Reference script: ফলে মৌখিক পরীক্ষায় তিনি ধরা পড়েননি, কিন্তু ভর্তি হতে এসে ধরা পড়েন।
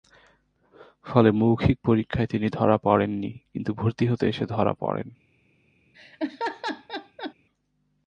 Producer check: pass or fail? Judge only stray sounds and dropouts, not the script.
fail